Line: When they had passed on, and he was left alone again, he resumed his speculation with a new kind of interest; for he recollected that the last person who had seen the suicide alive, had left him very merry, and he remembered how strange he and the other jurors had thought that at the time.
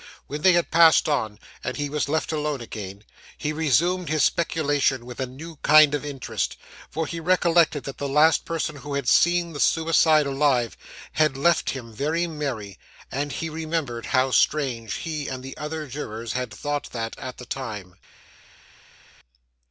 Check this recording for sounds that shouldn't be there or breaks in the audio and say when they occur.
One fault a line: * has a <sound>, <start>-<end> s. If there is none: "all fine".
all fine